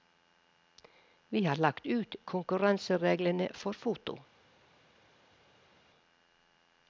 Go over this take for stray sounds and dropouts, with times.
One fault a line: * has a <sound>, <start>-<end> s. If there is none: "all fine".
all fine